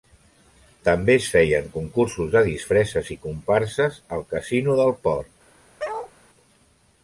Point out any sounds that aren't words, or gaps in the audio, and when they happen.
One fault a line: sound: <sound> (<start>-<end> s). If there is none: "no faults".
sound: bark (5.8-6.1 s)